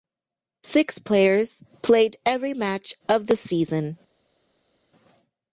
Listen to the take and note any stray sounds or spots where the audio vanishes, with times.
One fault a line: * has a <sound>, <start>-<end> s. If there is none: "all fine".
all fine